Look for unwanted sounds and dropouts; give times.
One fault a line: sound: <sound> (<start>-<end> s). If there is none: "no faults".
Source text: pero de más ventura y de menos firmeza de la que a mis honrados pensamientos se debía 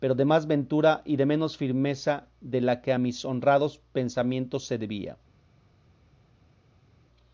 no faults